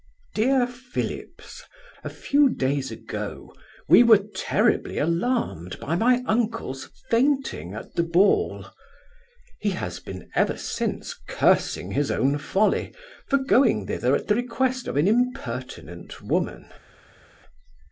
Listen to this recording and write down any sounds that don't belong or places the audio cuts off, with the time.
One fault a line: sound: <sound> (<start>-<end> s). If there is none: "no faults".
no faults